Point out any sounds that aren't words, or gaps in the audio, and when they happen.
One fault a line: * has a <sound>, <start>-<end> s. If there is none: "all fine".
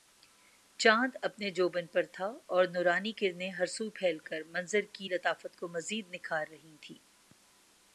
all fine